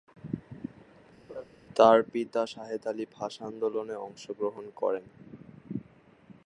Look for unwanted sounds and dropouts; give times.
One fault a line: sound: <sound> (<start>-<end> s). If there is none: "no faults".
sound: laugh (1.3-1.4 s)